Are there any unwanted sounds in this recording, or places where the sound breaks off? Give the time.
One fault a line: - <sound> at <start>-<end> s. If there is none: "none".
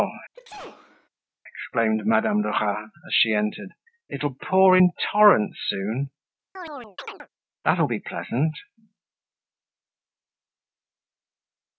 - sneeze at 0.3-1.1 s
- chirp at 6.5-7.3 s